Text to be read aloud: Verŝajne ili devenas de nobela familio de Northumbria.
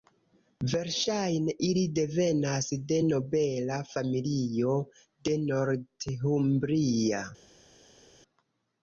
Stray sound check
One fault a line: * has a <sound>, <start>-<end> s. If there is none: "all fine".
all fine